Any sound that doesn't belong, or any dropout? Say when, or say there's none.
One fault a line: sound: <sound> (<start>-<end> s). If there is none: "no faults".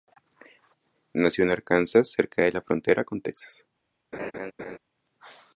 sound: laugh (4.1-4.8 s)